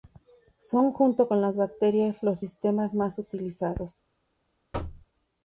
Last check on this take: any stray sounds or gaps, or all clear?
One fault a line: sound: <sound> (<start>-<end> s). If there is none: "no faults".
sound: thud (4.7-5.1 s)